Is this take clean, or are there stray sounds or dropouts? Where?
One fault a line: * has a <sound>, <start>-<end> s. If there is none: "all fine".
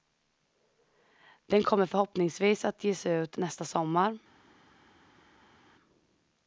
all fine